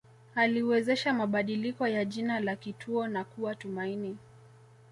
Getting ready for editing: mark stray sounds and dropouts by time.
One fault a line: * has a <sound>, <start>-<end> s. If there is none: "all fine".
all fine